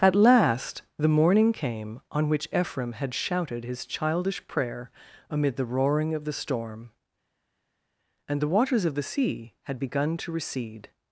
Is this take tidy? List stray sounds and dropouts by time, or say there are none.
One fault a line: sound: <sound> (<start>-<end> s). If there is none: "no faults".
no faults